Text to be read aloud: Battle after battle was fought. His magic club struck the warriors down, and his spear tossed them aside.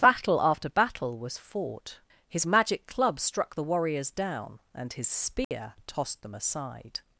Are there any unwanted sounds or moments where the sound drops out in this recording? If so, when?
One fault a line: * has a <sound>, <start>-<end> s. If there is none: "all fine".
* has a dropout, 5.4-5.5 s